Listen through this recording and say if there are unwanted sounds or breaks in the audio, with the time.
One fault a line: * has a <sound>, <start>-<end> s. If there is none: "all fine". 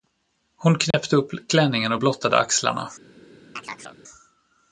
* has a dropout, 0.9-0.9 s
* has a chirp, 3.6-4.0 s